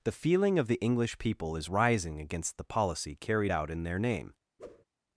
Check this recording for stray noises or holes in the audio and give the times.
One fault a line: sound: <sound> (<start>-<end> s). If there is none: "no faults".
sound: whoosh (4.6-4.8 s)